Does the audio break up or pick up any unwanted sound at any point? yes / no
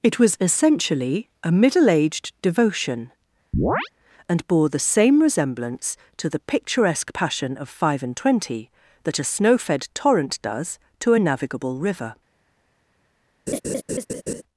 yes